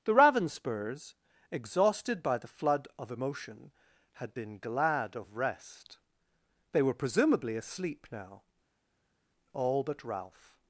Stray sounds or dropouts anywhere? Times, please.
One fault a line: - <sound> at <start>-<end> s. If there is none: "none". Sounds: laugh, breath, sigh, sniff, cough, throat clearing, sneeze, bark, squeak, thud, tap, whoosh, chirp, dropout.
none